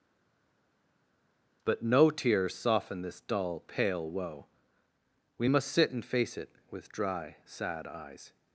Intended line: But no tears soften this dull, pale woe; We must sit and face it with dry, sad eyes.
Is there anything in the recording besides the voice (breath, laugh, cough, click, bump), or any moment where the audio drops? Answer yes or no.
no